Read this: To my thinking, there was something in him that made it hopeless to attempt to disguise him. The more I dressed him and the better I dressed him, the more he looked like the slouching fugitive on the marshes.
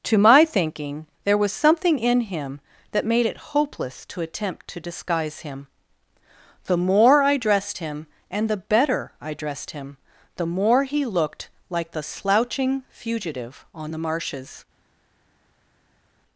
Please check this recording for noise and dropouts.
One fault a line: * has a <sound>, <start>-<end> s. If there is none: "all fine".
all fine